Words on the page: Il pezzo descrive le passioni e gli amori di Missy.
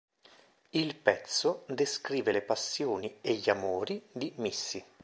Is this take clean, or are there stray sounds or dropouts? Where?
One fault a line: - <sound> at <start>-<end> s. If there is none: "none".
none